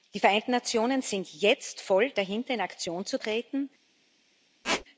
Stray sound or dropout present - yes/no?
yes